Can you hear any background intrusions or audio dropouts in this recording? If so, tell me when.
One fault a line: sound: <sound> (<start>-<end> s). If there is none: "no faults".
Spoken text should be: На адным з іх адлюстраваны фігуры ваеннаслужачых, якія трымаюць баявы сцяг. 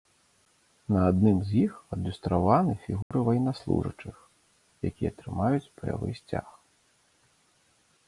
sound: dropout (3.0-3.1 s)